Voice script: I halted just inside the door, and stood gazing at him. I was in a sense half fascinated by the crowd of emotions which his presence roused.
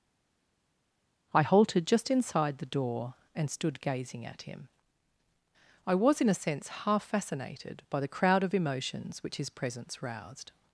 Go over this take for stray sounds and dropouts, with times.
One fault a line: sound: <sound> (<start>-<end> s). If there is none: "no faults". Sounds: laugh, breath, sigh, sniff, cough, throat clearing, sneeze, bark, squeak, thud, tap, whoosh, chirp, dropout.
no faults